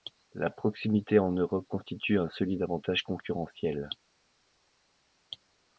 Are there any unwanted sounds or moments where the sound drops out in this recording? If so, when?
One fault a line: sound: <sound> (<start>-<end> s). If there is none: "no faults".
no faults